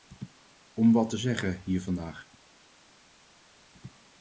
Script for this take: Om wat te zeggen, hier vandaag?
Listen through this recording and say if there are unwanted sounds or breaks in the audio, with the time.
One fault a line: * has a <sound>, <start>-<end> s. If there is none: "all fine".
all fine